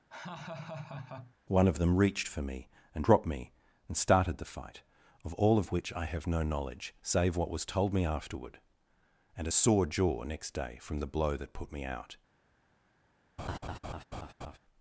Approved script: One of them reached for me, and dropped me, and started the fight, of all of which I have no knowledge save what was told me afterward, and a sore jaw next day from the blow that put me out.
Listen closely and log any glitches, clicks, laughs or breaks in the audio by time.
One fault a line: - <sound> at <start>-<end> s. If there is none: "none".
- laugh at 0.1-1.3 s
- laugh at 13.4-14.6 s